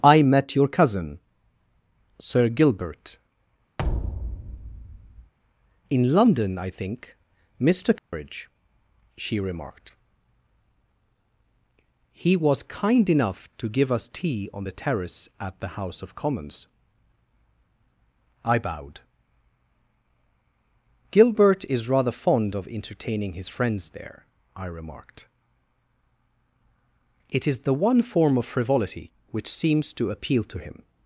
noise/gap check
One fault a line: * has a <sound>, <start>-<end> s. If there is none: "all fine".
* has a thud, 3.8-5.3 s
* has a dropout, 8.0-8.1 s